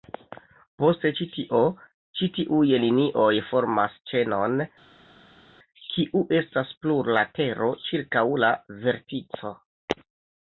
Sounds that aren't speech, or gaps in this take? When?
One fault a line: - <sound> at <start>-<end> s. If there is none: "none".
none